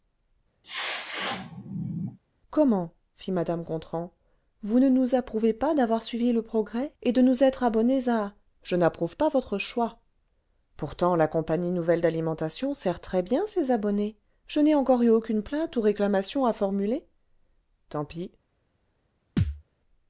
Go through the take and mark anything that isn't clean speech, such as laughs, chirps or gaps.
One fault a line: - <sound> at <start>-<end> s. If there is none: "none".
- sneeze at 0.6-2.2 s
- thud at 19.4-19.6 s